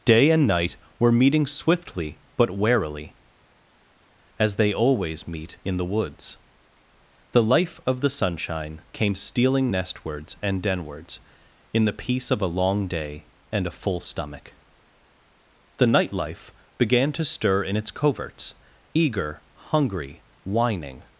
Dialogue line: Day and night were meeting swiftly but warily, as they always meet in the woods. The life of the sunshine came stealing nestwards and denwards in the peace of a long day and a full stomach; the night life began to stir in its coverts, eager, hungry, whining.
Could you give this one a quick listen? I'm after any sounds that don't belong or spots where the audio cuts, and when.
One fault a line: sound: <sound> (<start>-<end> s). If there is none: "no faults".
no faults